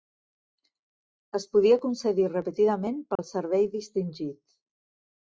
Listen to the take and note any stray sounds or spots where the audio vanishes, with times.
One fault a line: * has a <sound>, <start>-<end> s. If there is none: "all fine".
* has a dropout, 3.2-3.2 s